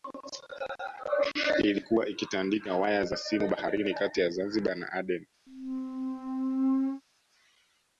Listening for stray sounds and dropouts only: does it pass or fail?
fail